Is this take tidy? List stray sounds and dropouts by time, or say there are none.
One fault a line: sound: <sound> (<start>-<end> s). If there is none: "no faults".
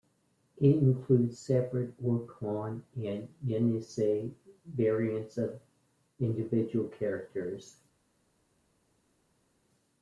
no faults